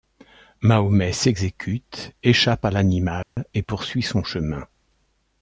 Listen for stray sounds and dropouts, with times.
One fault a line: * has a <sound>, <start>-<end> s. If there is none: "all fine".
* has a dropout, 3.2-3.4 s